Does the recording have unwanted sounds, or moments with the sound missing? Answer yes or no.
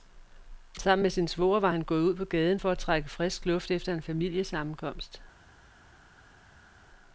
no